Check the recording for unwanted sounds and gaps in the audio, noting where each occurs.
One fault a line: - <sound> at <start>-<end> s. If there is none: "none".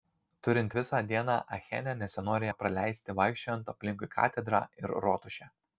none